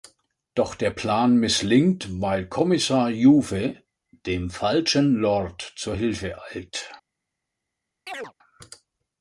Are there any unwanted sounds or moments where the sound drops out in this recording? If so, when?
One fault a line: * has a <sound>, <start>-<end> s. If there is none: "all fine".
* has a chirp, 8.1-8.3 s